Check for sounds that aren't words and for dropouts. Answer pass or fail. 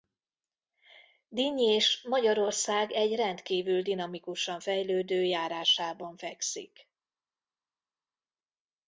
pass